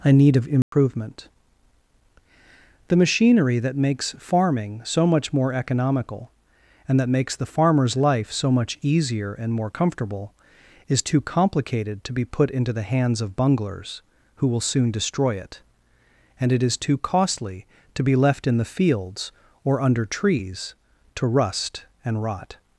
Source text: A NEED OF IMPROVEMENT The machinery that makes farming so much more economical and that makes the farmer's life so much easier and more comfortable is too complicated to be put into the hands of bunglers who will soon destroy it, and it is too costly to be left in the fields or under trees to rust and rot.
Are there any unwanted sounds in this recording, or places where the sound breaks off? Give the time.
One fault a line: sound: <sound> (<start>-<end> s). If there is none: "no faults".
sound: dropout (0.6-0.7 s)